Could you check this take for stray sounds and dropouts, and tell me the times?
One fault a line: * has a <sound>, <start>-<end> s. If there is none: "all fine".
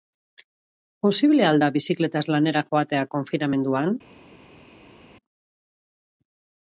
all fine